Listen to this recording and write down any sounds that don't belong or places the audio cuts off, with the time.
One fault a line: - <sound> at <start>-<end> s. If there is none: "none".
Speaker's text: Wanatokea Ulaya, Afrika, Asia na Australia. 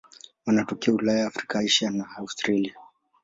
none